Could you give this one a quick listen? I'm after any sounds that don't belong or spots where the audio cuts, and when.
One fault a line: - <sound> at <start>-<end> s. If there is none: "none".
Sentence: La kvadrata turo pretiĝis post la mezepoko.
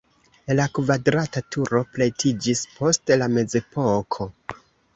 none